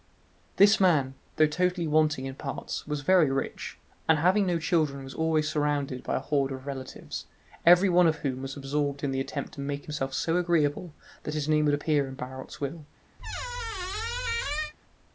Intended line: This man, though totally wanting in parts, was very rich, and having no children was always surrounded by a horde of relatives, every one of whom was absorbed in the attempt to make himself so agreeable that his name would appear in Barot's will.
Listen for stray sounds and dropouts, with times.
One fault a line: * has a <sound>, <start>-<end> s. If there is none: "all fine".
* has a squeak, 13.2-14.7 s